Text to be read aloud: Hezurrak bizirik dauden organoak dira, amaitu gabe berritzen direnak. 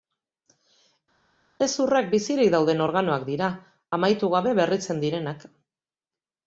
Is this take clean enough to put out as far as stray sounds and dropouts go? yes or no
yes